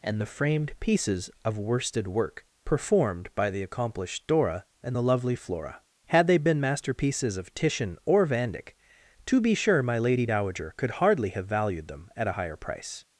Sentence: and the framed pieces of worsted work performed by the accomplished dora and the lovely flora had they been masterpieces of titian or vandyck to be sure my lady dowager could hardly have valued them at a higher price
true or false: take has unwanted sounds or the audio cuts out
false